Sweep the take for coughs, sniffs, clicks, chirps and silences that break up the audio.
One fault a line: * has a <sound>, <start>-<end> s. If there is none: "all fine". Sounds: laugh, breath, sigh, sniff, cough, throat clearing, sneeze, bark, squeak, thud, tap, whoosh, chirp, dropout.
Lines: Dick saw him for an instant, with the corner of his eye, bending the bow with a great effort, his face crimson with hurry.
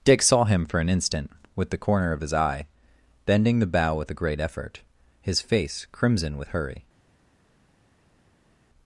all fine